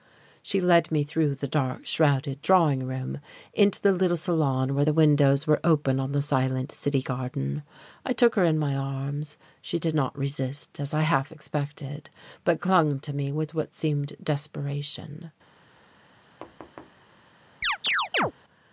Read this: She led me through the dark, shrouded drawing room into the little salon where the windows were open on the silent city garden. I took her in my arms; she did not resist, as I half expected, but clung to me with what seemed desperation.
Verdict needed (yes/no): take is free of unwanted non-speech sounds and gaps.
no